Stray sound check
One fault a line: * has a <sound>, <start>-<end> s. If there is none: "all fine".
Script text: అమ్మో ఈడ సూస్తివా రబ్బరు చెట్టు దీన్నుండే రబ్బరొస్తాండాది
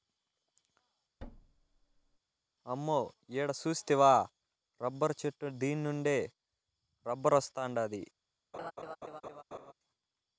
* has a thud, 1.2-2.2 s
* has a laugh, 8.5-9.7 s